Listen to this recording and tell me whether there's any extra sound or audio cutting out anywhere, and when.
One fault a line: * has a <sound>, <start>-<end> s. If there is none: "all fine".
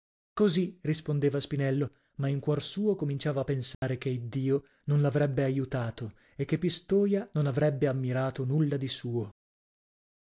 * has a dropout, 3.7-3.8 s